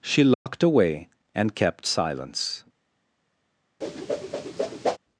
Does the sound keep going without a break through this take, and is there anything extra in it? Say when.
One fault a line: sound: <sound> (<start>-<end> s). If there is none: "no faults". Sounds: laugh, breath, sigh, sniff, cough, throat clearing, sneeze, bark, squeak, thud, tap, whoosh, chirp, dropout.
sound: dropout (0.3-0.5 s)
sound: whoosh (3.8-5.0 s)